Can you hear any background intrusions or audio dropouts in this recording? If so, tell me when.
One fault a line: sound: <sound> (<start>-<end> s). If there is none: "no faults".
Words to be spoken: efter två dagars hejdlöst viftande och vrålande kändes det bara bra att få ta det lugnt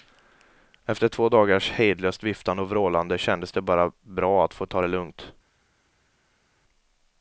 no faults